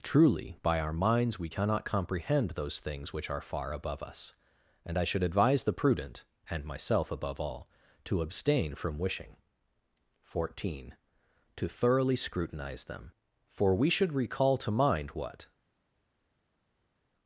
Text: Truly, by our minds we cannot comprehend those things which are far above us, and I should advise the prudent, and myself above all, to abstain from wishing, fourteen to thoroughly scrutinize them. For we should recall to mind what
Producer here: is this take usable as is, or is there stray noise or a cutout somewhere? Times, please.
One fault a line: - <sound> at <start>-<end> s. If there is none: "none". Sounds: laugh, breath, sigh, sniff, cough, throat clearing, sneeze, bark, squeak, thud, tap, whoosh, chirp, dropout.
none